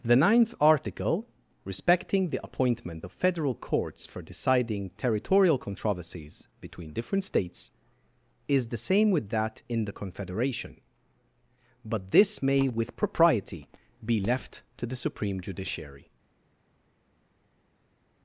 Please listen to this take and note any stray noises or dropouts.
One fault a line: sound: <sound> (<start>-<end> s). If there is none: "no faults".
no faults